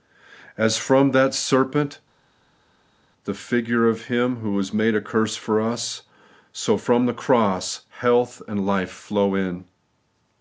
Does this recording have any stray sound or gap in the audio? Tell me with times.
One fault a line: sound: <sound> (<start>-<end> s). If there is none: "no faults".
no faults